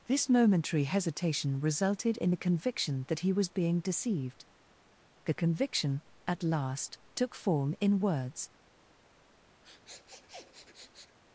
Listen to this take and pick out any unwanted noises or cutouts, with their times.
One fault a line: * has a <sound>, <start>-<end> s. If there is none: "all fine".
* has a sniff, 9.6-11.2 s